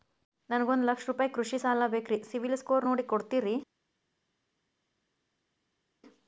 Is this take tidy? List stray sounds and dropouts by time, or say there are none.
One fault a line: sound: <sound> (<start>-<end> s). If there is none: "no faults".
no faults